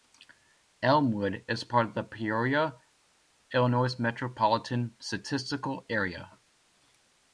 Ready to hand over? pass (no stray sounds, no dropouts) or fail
pass